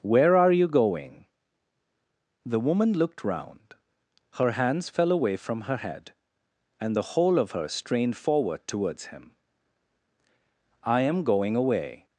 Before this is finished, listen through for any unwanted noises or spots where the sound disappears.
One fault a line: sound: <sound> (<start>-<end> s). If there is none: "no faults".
no faults